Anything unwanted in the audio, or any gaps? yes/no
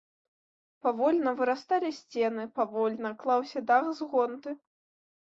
no